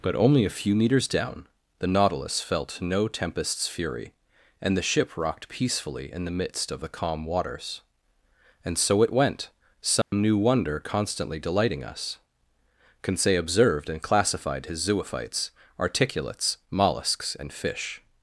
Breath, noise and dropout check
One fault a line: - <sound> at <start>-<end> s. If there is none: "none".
- dropout at 10.0-10.1 s